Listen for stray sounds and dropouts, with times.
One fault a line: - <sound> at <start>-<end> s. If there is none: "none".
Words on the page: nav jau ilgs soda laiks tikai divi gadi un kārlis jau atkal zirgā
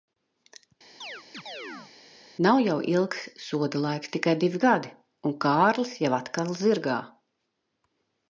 - chirp at 1.0-1.9 s